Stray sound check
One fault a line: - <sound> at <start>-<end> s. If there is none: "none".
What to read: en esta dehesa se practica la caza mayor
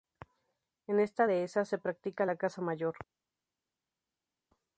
none